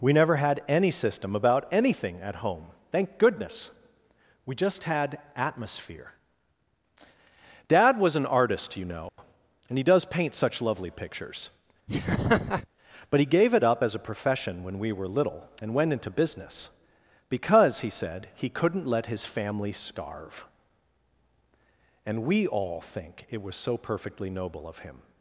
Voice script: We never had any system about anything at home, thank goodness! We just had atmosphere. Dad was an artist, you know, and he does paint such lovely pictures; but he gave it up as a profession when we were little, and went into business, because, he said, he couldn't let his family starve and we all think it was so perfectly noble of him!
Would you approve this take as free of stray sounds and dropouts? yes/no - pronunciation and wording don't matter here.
no